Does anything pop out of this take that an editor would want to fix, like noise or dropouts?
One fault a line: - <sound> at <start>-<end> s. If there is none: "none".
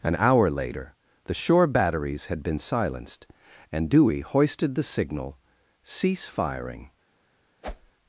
- whoosh at 7.6-7.9 s